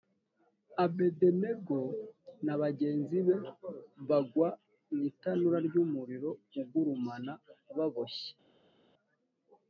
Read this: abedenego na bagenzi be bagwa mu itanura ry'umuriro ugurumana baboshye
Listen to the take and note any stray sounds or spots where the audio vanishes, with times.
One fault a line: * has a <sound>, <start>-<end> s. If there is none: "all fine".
all fine